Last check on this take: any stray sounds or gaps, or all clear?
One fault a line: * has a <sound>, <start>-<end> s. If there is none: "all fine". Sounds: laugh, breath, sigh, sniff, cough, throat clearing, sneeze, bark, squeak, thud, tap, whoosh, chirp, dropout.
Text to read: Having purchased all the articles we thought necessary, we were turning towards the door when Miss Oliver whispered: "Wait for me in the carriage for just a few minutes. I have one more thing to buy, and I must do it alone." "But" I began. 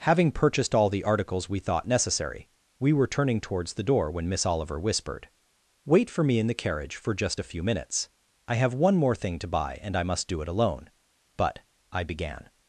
all fine